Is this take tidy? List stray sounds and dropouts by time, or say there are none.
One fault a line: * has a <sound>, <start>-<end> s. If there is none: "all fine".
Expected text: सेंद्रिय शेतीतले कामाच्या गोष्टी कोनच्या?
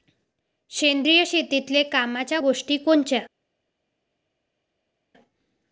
all fine